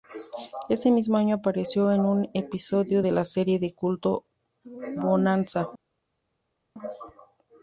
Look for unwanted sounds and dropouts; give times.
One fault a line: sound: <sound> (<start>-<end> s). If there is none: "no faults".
no faults